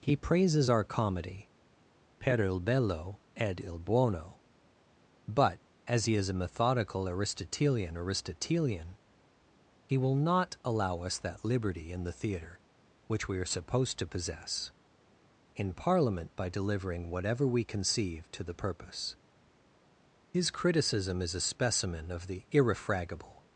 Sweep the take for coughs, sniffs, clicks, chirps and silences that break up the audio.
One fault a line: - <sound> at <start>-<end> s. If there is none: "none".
none